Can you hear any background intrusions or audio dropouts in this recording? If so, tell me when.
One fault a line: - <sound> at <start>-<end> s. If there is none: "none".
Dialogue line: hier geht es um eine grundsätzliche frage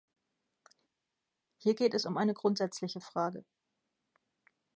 none